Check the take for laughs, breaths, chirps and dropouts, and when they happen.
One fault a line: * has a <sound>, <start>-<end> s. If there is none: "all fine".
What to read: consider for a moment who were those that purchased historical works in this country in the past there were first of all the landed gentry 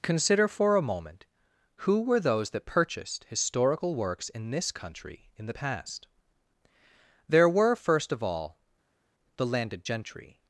all fine